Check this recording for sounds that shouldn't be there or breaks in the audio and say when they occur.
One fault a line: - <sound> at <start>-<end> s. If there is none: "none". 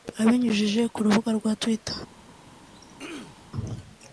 - throat clearing at 2.6-3.5 s